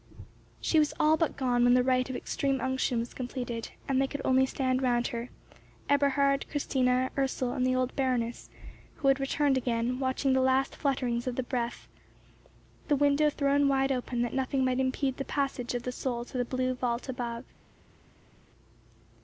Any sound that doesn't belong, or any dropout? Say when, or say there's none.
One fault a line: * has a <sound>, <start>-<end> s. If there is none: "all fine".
all fine